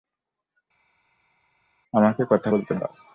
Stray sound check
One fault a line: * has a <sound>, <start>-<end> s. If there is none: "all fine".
all fine